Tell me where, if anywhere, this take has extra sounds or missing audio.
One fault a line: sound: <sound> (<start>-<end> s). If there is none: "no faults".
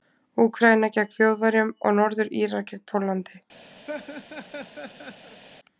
sound: laugh (3.9-5.4 s)